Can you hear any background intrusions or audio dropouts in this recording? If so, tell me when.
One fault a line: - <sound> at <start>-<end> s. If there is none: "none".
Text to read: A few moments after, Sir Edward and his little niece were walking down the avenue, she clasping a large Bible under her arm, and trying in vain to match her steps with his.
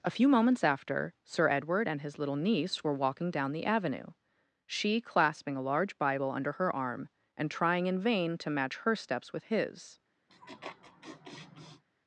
- laugh at 10.3-11.8 s